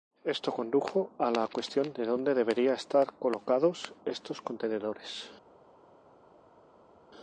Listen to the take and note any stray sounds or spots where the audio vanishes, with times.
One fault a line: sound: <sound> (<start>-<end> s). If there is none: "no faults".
no faults